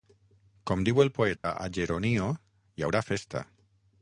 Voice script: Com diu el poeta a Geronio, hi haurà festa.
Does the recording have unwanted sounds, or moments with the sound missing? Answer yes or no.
yes